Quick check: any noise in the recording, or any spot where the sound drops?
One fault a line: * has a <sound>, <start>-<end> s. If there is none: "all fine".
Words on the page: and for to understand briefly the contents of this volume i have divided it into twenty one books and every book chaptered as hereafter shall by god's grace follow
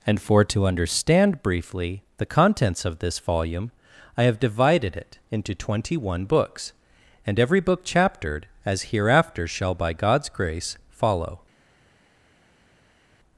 all fine